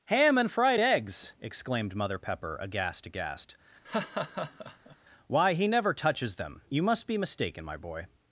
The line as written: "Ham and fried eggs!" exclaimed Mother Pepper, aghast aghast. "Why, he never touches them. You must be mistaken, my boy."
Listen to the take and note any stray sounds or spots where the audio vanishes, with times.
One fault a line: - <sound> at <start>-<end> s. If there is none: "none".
- laugh at 3.8-5.0 s